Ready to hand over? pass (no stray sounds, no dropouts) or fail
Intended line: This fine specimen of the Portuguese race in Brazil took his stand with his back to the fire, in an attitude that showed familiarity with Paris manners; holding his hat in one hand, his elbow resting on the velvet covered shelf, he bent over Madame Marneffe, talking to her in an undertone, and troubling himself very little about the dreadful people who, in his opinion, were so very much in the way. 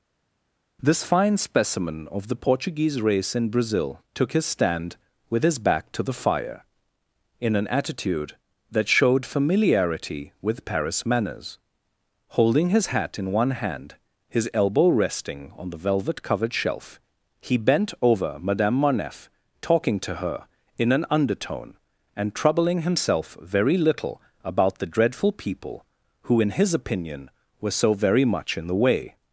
pass